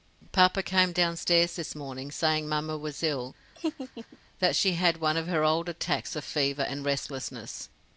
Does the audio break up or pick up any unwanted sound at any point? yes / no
yes